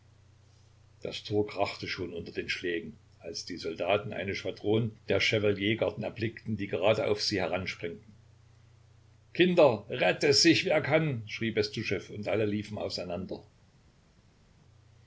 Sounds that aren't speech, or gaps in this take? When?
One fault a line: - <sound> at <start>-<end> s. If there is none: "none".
none